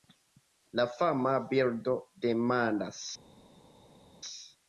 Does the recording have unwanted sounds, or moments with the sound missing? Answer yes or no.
no